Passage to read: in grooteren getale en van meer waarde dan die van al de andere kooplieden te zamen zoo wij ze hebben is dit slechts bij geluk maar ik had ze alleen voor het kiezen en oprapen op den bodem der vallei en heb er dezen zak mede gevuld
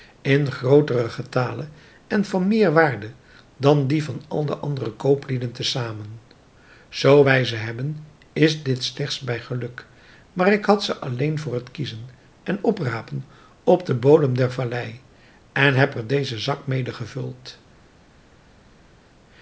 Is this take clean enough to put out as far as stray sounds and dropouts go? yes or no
yes